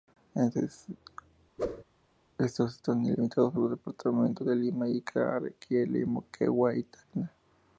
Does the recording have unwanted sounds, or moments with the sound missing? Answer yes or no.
yes